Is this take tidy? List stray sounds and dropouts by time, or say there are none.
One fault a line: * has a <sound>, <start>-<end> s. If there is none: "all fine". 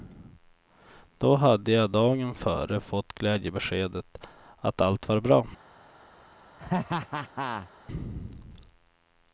* has a laugh, 6.6-7.7 s